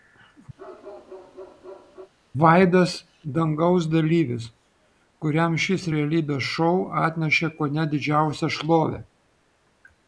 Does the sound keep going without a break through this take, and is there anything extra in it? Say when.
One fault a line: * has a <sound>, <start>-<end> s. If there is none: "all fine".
* has a bark, 0.6-2.1 s